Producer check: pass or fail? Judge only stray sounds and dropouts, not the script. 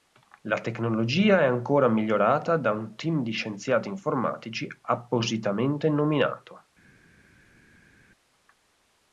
pass